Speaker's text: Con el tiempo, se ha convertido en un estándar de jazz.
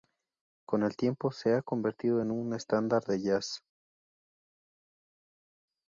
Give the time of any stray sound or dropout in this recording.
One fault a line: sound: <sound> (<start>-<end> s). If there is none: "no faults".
no faults